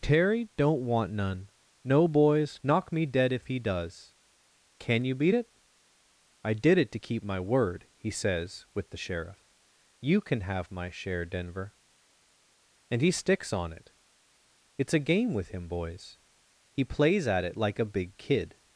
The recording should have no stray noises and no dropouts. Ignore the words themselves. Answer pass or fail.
pass